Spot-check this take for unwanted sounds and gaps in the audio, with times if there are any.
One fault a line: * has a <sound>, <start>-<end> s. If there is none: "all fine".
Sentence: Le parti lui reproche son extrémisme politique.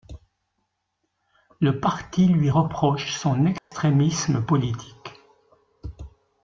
* has a dropout, 3.6-3.7 s